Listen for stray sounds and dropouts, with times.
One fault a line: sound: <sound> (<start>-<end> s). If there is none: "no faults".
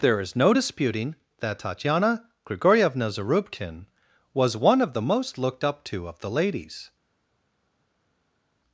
no faults